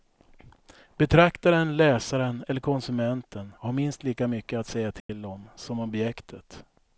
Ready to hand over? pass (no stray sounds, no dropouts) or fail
fail